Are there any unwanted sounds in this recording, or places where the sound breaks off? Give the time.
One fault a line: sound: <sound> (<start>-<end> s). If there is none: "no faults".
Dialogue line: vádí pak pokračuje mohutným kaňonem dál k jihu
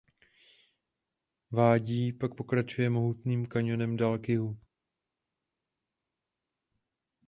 no faults